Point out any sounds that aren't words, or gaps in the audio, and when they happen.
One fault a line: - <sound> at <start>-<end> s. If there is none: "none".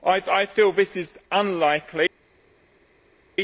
none